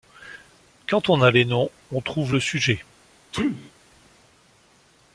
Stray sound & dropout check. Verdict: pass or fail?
fail